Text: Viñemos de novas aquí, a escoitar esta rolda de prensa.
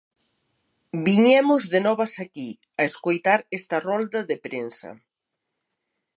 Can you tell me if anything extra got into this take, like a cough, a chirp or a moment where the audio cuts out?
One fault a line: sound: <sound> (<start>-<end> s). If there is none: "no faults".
no faults